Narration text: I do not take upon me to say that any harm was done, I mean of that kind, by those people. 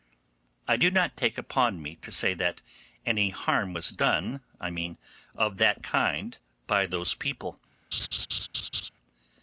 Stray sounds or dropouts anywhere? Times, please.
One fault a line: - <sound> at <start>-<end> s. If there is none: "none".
- laugh at 7.9-8.9 s